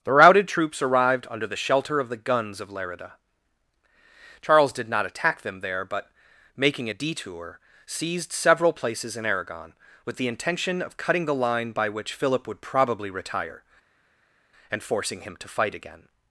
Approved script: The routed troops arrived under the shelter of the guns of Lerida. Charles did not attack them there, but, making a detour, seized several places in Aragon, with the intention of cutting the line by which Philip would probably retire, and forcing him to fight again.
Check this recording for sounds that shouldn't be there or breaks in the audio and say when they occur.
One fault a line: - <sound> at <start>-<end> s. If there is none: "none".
none